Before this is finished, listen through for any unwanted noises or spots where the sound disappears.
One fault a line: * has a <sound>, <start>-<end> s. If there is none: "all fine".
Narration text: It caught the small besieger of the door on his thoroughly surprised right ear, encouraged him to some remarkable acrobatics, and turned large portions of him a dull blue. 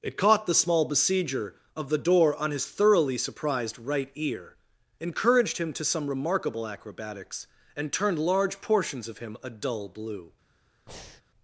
* has a breath, 10.9-11.2 s